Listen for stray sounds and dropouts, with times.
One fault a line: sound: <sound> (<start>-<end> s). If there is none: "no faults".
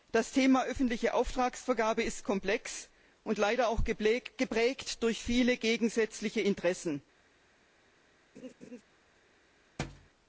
sound: laugh (8.3-8.8 s)
sound: thud (9.8-10.1 s)